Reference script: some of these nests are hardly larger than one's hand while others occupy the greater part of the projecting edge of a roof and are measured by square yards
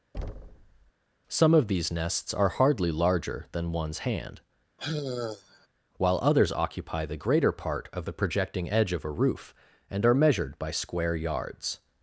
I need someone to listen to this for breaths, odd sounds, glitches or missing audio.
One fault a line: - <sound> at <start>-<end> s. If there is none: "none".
- thud at 0.1-0.9 s
- sigh at 4.8-5.7 s